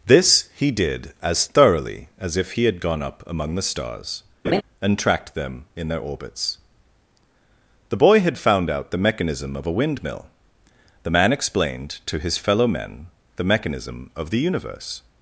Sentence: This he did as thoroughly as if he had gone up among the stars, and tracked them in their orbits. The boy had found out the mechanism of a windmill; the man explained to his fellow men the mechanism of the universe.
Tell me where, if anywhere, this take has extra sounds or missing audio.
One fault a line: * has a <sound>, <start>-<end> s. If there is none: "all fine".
* has a laugh, 4.4-4.6 s